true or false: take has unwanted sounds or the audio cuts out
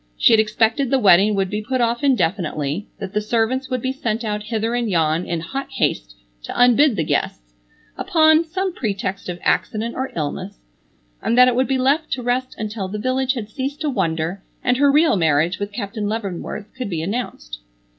false